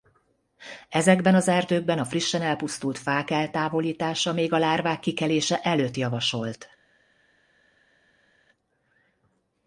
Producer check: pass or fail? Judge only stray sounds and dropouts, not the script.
pass